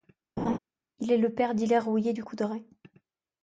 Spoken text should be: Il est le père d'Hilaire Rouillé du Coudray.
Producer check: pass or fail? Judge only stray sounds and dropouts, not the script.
fail